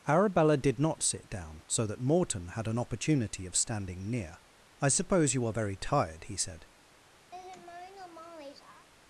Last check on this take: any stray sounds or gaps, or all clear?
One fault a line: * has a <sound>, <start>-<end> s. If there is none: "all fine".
* has a laugh, 7.3-8.9 s